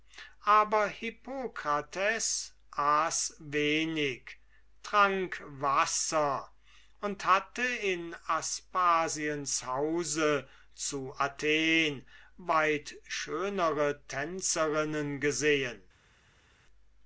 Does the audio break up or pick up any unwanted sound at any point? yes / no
no